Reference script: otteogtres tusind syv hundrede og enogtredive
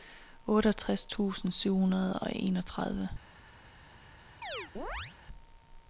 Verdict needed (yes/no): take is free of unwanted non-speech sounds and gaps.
no